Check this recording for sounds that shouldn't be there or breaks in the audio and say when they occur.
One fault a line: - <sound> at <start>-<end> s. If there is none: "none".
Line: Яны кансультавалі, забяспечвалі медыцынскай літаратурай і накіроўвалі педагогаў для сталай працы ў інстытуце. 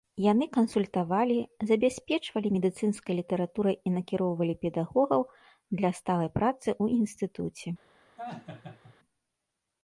- laugh at 8.2-8.9 s